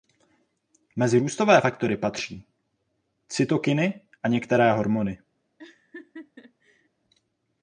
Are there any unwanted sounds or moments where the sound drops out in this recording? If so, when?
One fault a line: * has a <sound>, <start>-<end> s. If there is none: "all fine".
* has a laugh, 5.6-6.9 s